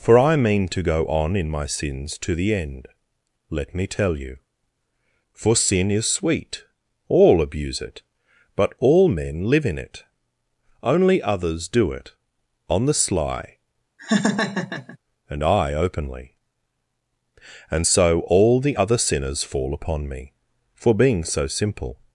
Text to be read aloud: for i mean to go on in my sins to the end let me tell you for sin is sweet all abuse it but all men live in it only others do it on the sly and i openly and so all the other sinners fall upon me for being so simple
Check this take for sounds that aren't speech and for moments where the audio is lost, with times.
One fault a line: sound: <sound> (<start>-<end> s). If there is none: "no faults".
sound: laugh (14.0-15.0 s)